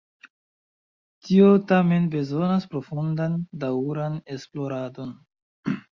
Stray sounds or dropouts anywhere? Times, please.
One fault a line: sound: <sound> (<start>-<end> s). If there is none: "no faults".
no faults